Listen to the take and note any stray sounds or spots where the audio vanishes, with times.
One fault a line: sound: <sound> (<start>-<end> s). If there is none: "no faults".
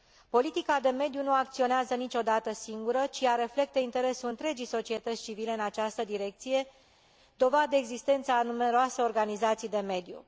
no faults